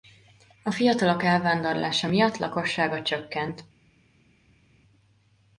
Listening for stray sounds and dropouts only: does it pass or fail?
pass